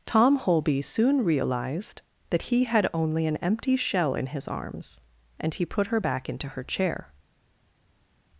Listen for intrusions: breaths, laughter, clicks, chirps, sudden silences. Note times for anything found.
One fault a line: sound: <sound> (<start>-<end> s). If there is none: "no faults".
no faults